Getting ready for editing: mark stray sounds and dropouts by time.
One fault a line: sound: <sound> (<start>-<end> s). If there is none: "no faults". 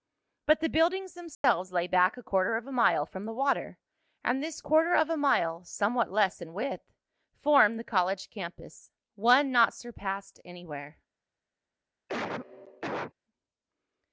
sound: dropout (1.3-1.4 s)
sound: cough (12.1-13.1 s)